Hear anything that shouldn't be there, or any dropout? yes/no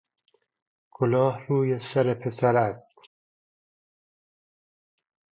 no